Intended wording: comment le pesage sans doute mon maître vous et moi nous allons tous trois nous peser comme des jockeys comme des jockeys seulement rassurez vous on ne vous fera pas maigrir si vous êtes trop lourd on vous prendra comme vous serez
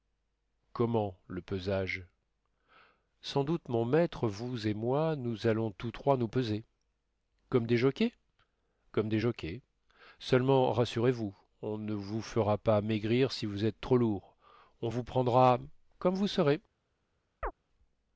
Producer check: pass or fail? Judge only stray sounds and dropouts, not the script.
fail